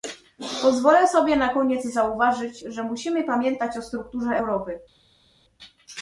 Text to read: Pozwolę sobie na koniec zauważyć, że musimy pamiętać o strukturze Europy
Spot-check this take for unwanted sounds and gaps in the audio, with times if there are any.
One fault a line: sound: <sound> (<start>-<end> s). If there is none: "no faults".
no faults